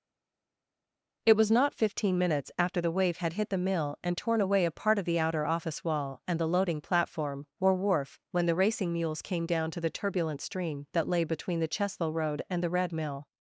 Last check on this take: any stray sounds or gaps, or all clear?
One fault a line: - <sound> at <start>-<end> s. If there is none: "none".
none